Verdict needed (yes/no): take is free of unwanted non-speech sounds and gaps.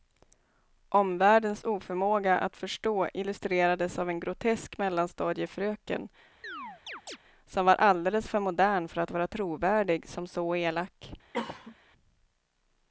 no